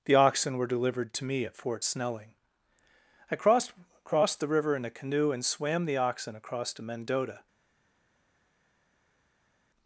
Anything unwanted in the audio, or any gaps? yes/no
no